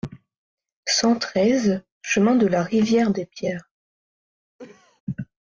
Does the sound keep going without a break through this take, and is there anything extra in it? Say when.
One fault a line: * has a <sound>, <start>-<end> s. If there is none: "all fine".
* has a cough, 4.6-5.0 s